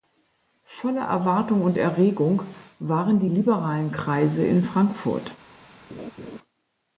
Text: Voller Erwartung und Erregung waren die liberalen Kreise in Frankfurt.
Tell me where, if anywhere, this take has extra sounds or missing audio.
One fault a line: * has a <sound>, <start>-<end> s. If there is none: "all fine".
* has a laugh, 5.9-6.4 s